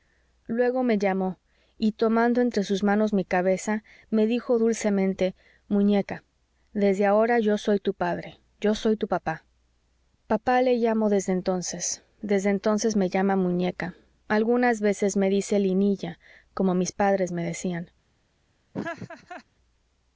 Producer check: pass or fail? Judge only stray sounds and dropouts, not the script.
fail